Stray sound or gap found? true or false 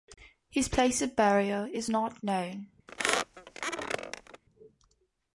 true